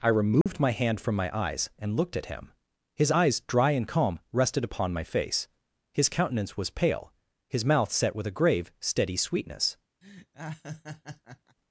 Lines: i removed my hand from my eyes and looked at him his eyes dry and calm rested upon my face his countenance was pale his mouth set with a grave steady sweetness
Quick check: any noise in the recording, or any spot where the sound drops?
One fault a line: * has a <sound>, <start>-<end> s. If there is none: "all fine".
* has a dropout, 0.4-0.5 s
* has a laugh, 10.0-11.6 s